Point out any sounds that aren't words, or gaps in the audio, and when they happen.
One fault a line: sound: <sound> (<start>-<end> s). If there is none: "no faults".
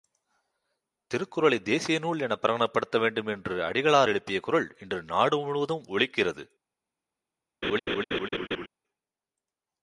sound: laugh (7.6-8.7 s)